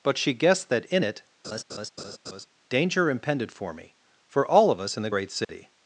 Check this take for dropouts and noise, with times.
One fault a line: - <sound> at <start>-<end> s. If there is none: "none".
- laugh at 1.4-2.5 s
- dropout at 5.4-5.5 s